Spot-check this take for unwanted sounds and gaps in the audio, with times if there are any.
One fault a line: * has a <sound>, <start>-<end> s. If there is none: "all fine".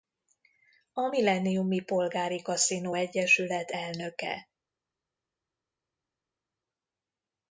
all fine